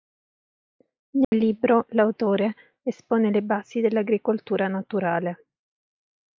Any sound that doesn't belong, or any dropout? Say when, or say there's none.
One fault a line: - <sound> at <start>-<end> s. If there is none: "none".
- dropout at 1.2-1.3 s